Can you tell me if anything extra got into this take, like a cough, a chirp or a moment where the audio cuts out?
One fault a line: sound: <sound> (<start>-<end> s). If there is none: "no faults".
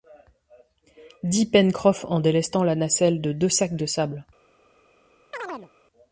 sound: chirp (5.3-5.7 s)